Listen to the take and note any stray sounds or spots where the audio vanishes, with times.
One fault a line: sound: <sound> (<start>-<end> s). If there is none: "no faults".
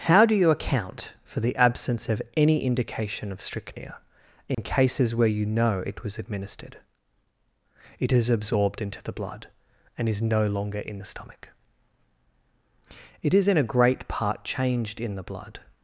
sound: dropout (4.5-4.6 s)